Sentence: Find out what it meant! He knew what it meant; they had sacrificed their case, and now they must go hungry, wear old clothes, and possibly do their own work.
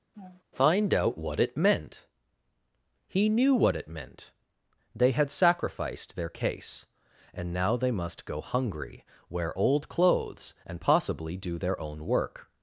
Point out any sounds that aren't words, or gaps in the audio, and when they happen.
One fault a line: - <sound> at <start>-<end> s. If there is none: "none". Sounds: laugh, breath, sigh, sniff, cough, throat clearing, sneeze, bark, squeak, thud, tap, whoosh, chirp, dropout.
- laugh at 0.1-0.4 s